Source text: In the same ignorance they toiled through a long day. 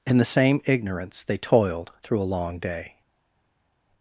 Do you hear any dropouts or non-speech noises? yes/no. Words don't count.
no